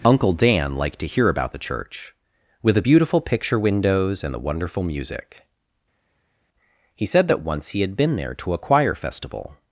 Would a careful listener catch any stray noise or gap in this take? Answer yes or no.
no